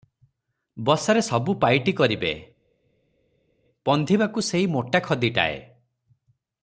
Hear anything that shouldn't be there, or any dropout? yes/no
no